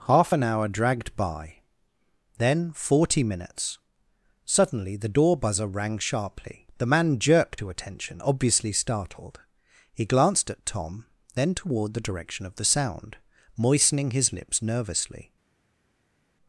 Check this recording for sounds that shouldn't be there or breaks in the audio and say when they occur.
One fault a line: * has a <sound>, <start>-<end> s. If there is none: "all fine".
all fine